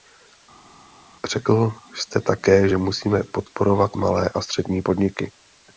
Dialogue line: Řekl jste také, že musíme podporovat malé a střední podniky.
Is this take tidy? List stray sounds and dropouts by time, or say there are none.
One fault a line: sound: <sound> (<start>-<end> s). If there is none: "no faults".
no faults